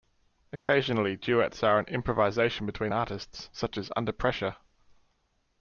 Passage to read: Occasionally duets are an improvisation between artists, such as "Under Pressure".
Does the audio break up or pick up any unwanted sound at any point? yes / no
yes